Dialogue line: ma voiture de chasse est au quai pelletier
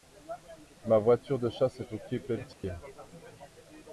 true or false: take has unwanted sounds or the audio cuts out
true